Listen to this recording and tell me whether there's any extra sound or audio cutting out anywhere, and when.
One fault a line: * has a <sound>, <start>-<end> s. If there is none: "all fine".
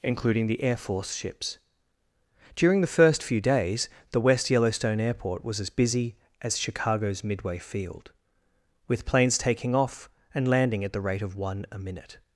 all fine